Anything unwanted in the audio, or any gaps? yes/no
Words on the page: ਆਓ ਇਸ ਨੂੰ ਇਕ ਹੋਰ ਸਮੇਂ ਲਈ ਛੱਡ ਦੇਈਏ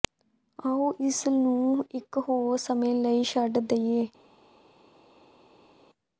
no